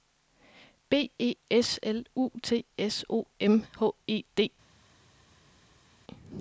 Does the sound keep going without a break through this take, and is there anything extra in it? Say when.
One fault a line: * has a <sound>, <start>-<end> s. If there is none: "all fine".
all fine